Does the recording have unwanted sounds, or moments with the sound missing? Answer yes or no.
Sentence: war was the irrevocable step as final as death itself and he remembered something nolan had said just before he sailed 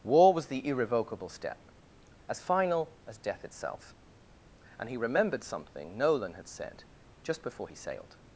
no